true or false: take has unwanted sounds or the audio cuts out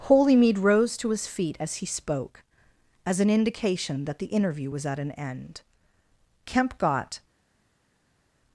false